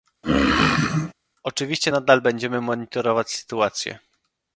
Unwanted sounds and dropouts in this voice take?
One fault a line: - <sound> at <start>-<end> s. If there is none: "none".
- throat clearing at 0.2-1.1 s